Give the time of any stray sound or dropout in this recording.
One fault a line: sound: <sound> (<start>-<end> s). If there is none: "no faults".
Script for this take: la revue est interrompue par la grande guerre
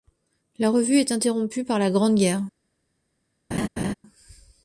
sound: laugh (3.5-3.9 s)